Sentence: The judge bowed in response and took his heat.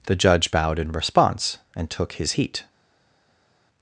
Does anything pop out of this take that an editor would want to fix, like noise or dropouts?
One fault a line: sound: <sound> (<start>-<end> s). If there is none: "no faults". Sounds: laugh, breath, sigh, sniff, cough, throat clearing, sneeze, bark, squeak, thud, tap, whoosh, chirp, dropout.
no faults